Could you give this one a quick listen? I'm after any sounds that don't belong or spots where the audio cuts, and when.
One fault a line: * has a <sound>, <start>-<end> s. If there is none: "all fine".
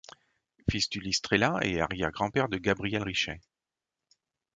all fine